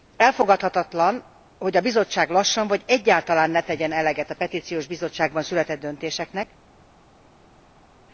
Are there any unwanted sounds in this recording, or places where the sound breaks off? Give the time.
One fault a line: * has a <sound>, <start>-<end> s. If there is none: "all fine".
all fine